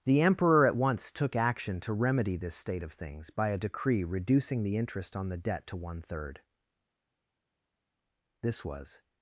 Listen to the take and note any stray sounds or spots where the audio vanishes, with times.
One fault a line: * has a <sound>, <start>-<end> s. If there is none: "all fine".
all fine